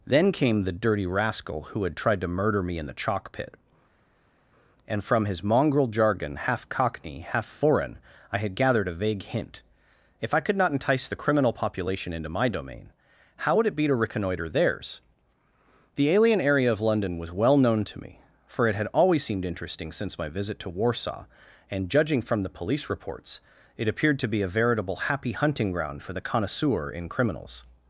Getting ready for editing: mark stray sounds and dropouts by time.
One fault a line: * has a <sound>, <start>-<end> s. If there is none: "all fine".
all fine